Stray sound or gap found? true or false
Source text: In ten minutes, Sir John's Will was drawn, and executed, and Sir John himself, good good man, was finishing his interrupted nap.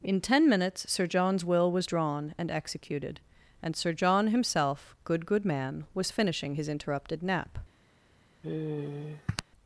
true